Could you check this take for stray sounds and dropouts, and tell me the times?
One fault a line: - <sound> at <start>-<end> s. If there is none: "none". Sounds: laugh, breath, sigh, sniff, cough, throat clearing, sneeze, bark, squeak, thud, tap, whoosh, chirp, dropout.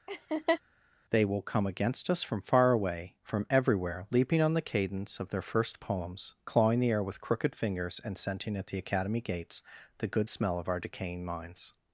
- laugh at 0.1-0.6 s